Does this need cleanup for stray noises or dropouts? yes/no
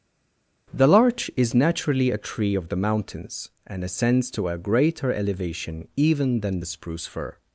no